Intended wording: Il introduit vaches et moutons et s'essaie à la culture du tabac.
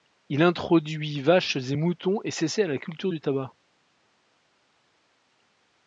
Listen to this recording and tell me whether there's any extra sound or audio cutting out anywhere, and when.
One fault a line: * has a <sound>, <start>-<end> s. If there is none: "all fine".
all fine